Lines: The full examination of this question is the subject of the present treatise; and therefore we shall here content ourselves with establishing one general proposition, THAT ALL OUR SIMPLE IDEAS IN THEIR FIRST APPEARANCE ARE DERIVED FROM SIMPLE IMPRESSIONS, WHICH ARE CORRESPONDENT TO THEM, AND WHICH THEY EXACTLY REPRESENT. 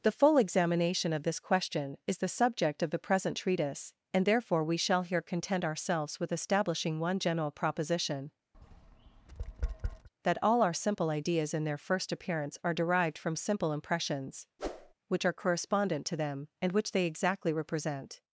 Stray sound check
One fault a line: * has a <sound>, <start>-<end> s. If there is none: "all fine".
* has a tap, 8.5-10.1 s
* has a whoosh, 14.6-14.9 s